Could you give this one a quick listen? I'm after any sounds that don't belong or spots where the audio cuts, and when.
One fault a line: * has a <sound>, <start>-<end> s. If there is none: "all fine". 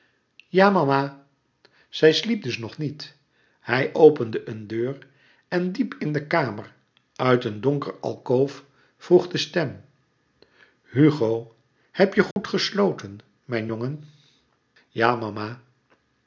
* has a dropout, 12.3-12.4 s